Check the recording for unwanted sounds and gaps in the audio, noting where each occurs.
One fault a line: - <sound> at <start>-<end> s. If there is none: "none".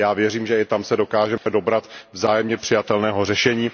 - dropout at 1.4-1.5 s